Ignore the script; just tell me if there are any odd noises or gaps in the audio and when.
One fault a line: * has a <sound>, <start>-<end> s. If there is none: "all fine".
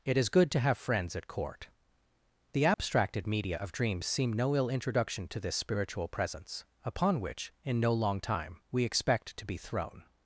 * has a dropout, 2.7-2.8 s